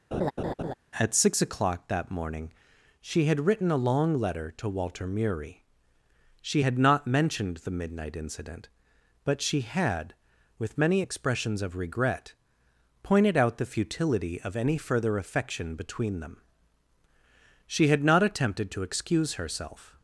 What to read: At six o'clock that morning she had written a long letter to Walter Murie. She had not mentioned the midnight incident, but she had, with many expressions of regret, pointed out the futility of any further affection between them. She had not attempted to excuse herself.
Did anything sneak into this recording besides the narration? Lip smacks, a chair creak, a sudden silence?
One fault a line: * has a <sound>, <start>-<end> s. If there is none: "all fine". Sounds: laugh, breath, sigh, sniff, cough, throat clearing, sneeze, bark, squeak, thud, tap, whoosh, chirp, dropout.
* has a laugh, 0.1-0.7 s